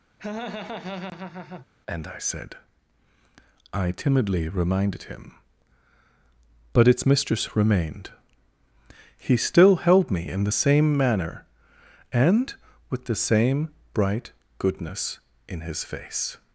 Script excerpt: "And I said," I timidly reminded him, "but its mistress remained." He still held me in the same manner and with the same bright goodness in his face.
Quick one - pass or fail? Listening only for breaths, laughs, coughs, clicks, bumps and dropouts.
fail